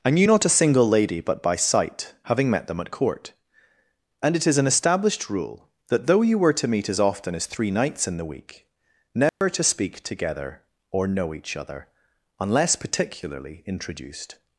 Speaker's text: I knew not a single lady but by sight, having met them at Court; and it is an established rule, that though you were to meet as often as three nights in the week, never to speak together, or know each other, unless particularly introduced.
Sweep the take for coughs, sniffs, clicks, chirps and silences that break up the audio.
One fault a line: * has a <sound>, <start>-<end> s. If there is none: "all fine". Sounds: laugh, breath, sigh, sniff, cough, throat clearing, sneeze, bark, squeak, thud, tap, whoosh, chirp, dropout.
* has a dropout, 9.3-9.4 s